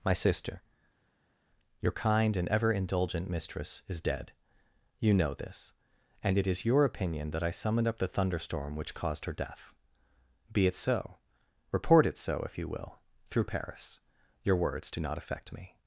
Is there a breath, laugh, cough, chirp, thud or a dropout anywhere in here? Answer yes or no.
no